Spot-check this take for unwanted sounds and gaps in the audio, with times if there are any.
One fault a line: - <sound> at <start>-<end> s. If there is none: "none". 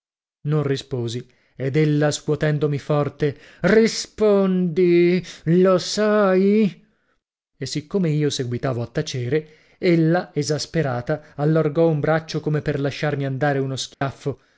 - dropout at 13.9-14.0 s